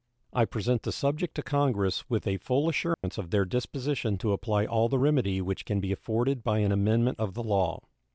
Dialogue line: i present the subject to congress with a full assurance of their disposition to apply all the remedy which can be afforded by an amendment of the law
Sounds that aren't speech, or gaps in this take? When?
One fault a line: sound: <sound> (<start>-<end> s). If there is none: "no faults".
sound: dropout (2.9-3.0 s)